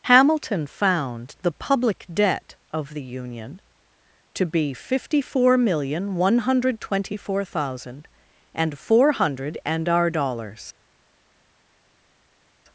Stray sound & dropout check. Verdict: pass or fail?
pass